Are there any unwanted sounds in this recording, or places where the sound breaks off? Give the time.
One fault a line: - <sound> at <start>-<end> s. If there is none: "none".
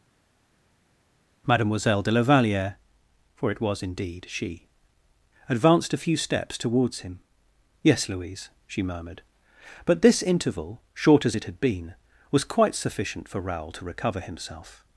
none